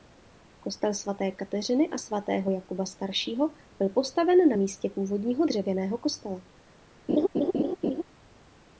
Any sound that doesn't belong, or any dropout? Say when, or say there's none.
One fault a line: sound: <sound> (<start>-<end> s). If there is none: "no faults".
sound: laugh (7.1-8.0 s)